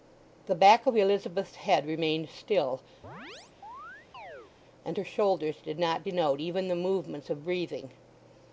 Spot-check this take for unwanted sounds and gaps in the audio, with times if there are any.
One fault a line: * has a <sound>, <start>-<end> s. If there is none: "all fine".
* has a chirp, 3.0-4.5 s